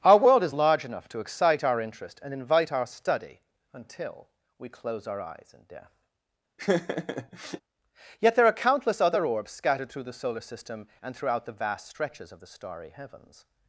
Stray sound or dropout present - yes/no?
yes